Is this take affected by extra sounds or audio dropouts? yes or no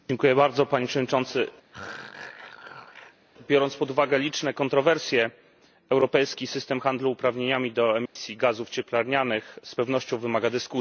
yes